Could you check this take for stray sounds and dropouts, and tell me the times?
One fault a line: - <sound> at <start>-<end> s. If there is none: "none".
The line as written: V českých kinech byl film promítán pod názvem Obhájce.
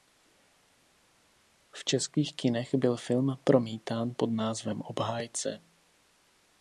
none